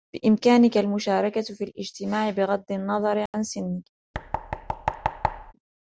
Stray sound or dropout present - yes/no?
yes